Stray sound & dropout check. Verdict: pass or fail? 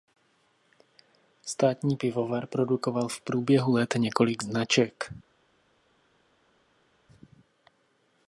pass